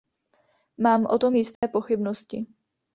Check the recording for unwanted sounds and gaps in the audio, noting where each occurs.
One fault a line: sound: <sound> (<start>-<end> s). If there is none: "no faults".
sound: dropout (1.6-1.6 s)